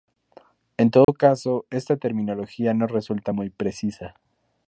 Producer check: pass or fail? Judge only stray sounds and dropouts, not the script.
fail